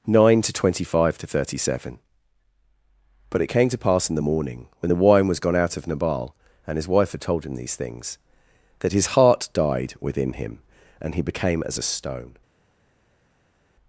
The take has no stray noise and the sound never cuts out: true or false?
true